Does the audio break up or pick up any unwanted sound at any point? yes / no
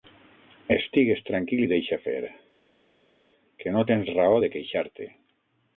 no